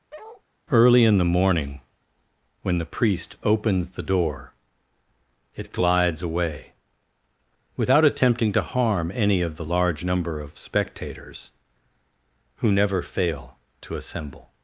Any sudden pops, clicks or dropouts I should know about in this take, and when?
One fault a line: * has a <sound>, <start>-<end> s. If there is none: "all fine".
* has a bark, 0.1-0.4 s